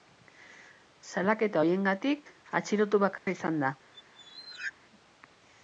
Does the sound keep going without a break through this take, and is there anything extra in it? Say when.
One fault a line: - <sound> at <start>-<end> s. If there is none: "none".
- dropout at 3.2-3.3 s
- squeak at 3.9-4.7 s